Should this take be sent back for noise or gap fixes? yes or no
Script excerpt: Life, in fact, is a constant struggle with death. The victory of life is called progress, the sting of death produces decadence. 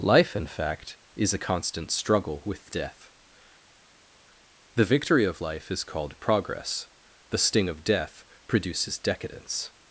no